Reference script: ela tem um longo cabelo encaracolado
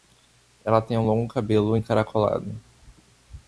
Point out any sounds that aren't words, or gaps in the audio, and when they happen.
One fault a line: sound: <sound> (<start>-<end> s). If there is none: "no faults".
no faults